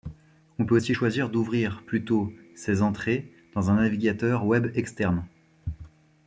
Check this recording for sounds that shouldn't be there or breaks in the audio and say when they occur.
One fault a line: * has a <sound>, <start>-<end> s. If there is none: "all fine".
all fine